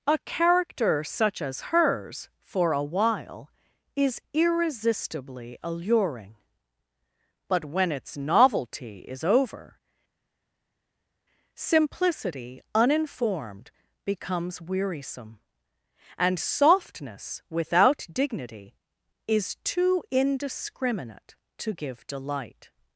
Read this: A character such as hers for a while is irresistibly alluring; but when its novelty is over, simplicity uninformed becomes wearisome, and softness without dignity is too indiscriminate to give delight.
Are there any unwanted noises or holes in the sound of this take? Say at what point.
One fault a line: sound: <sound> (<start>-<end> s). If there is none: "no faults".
no faults